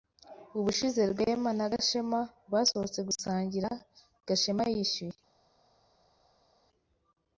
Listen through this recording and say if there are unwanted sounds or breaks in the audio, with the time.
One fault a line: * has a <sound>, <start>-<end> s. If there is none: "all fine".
all fine